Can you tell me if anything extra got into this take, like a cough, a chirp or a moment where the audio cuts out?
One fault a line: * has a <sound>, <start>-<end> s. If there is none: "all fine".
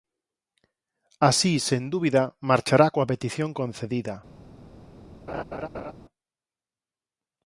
* has a laugh, 5.3-5.9 s